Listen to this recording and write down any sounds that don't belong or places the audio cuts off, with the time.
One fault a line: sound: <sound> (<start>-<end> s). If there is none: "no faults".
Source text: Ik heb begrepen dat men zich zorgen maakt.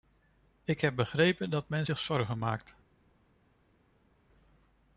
no faults